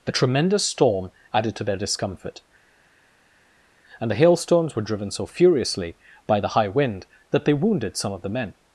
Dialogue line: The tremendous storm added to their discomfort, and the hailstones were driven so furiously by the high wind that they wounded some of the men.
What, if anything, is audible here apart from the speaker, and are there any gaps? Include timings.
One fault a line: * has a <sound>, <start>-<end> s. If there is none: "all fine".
all fine